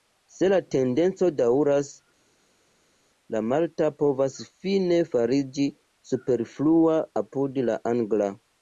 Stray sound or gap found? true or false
false